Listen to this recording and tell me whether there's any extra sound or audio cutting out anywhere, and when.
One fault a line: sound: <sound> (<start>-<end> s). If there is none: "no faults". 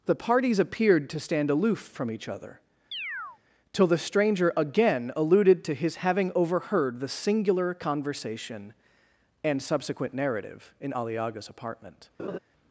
sound: chirp (2.9-3.4 s)
sound: laugh (12.2-12.4 s)